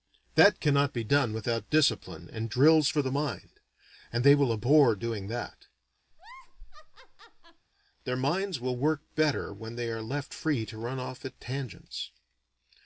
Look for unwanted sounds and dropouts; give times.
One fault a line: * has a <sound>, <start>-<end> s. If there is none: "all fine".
* has a laugh, 6.1-7.7 s